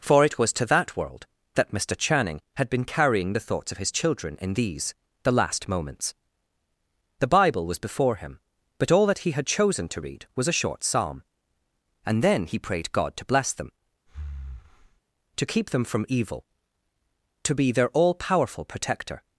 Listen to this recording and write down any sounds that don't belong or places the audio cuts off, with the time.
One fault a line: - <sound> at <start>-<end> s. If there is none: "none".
- breath at 14.1-15.0 s